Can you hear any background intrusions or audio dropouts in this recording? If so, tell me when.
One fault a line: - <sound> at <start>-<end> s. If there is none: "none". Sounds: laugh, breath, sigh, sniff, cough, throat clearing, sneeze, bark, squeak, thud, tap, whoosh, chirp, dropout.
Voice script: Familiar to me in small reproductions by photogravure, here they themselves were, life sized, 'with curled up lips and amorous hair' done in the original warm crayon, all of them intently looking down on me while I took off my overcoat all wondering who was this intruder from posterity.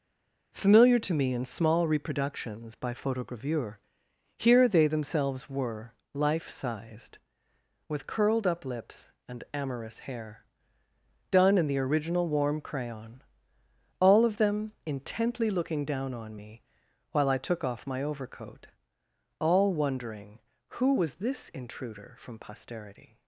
none